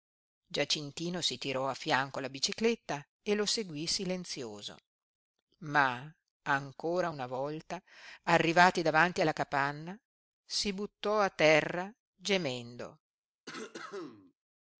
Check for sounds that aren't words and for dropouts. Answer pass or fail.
fail